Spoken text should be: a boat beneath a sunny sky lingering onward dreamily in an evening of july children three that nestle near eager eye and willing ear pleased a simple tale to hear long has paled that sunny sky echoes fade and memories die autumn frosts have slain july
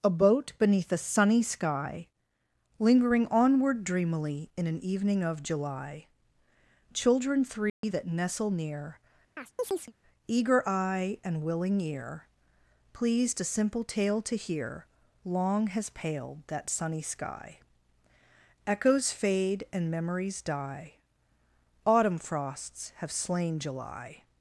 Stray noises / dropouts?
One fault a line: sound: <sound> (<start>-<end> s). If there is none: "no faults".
sound: dropout (7.7-7.8 s)
sound: chirp (9.4-9.9 s)